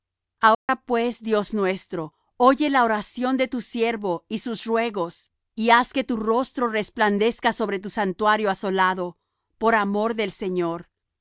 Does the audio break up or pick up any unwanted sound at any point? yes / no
yes